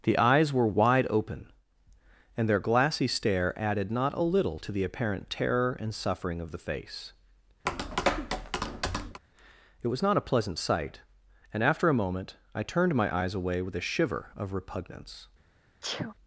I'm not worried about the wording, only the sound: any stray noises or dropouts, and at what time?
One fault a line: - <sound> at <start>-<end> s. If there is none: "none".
- tap at 7.7-9.2 s
- sneeze at 15.8-16.1 s